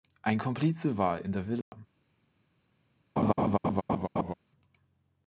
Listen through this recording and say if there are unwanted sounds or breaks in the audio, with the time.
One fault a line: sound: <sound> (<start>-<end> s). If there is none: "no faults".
sound: dropout (1.6-1.7 s)
sound: laugh (3.2-4.3 s)